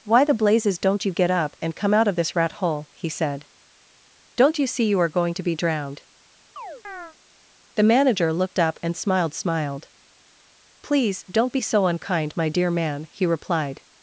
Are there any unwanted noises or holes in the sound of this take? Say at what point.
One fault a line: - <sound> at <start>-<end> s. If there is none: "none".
- chirp at 6.6-7.2 s